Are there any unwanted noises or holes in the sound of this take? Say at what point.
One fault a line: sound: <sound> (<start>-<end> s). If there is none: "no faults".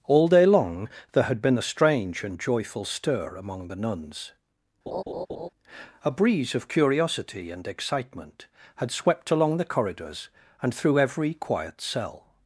sound: laugh (4.9-5.5 s)